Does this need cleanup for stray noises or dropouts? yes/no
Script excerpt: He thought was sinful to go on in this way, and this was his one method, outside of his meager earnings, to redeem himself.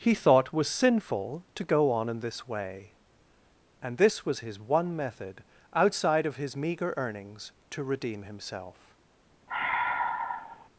yes